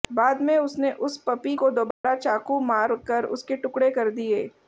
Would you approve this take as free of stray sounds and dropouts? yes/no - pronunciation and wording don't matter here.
no